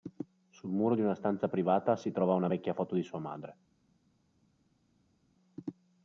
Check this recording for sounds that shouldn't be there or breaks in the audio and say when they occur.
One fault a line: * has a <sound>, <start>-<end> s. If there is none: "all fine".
all fine